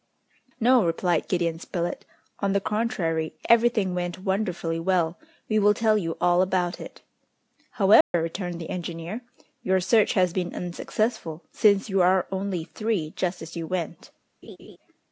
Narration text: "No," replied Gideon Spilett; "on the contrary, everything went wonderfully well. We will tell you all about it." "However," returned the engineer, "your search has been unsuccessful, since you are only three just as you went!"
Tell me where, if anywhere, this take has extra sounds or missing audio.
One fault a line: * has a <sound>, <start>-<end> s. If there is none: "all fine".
* has a dropout, 8.0-8.1 s
* has a laugh, 14.4-14.8 s